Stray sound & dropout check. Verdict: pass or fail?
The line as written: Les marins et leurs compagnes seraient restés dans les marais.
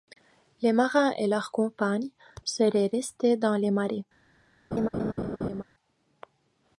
fail